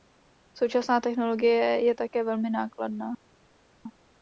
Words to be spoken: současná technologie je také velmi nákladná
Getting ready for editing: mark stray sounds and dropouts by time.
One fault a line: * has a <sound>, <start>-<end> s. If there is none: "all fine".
all fine